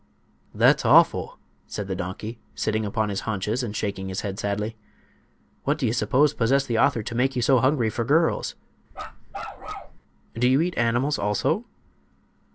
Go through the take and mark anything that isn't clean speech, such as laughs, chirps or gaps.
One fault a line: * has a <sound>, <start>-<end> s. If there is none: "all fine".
* has a bark, 8.9-10.0 s